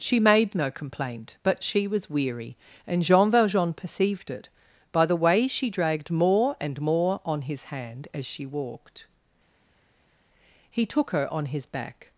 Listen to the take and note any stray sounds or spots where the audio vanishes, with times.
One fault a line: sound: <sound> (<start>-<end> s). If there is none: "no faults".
no faults